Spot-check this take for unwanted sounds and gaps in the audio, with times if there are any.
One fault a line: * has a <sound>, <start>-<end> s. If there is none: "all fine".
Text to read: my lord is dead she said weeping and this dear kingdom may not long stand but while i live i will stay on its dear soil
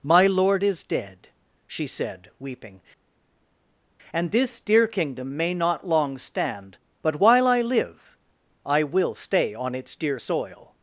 all fine